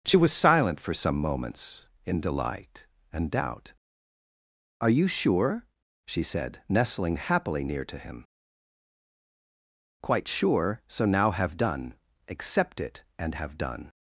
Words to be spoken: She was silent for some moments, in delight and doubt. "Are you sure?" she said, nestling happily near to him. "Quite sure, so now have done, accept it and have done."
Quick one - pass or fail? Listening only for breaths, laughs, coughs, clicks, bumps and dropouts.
pass